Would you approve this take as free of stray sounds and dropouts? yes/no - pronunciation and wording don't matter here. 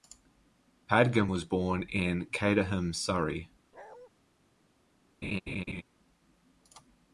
no